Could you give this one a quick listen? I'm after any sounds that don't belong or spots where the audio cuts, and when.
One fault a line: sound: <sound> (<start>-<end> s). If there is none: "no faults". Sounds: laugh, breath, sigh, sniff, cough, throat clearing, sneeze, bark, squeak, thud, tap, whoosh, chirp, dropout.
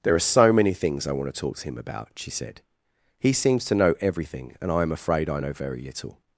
no faults